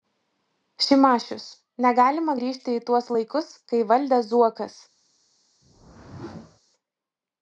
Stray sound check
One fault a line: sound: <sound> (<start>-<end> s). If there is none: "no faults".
sound: whoosh (5.6-6.6 s)